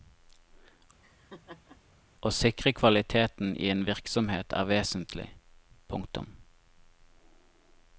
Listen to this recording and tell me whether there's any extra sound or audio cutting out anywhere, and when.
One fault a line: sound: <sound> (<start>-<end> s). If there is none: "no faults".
sound: laugh (1.0-1.8 s)